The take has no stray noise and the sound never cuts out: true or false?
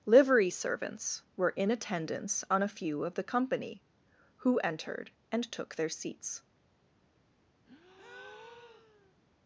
false